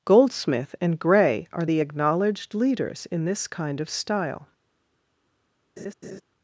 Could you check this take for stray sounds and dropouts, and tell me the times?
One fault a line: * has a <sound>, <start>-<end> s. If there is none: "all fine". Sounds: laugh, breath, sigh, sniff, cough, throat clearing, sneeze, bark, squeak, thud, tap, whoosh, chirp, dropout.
* has a laugh, 5.8-6.2 s